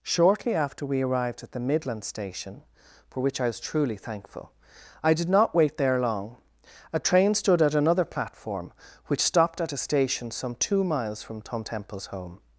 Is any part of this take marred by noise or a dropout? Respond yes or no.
no